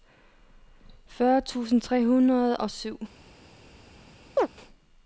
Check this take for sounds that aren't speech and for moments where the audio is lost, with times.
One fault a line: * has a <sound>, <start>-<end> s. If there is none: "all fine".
* has a chirp, 4.4-4.5 s